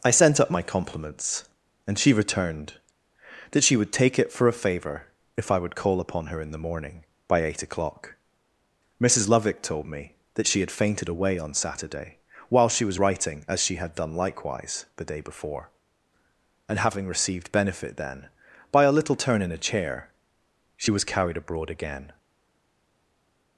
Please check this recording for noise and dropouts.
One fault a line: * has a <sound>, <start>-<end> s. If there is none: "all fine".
all fine